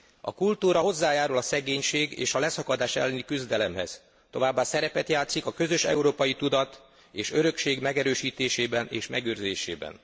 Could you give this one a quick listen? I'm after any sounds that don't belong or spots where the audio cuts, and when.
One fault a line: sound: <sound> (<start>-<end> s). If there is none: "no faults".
no faults